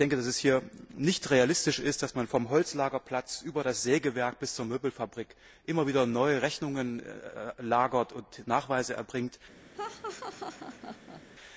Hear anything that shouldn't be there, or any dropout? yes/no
yes